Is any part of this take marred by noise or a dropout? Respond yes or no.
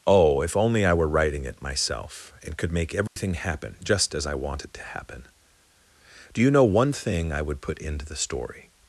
yes